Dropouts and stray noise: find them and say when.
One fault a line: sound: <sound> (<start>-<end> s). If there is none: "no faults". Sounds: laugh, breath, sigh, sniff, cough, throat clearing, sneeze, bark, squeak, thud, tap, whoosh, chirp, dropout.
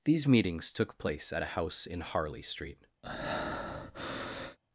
sound: breath (3.0-4.6 s)